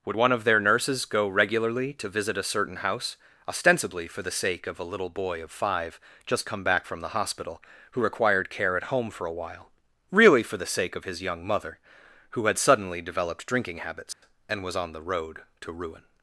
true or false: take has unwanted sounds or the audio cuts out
true